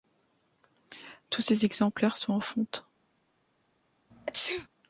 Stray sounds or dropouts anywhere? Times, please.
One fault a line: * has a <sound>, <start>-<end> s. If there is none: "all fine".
* has a sneeze, 4.1-4.7 s